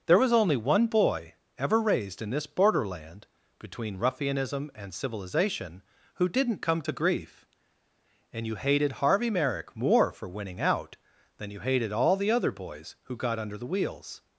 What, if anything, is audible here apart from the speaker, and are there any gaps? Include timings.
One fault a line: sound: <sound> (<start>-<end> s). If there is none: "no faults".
no faults